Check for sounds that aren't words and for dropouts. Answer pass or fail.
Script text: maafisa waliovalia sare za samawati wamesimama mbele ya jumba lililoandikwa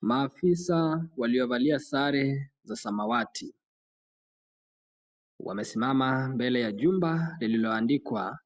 pass